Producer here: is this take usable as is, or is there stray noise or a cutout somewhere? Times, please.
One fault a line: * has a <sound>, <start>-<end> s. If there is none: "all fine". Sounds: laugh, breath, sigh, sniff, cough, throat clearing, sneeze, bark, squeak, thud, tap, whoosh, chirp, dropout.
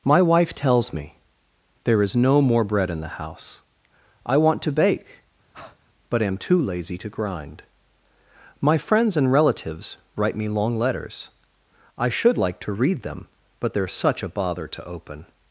* has a breath, 5.5-5.8 s